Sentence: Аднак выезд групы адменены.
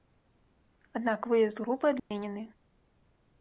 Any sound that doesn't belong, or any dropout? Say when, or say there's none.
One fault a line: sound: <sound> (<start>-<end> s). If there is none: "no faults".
sound: dropout (2.0-2.1 s)